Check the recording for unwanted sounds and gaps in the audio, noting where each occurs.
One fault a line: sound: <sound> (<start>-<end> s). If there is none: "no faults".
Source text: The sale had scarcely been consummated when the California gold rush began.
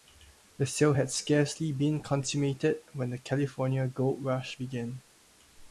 no faults